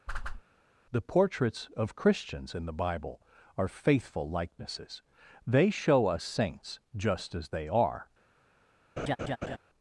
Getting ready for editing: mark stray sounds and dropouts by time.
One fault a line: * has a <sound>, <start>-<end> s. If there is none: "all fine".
* has a whoosh, 0.1-0.4 s
* has a laugh, 9.0-9.6 s